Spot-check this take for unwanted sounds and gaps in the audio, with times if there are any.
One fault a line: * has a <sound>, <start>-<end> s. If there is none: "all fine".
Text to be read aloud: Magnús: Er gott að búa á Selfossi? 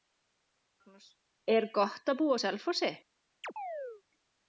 * has a chirp, 3.4-4.0 s